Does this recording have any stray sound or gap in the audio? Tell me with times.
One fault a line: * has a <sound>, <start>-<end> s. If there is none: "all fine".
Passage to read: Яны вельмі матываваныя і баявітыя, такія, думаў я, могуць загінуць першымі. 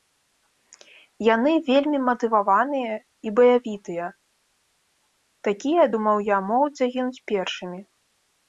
all fine